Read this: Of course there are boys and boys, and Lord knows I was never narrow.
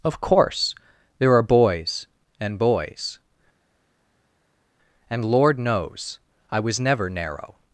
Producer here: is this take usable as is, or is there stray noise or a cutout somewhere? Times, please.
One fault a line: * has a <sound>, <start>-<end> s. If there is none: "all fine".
all fine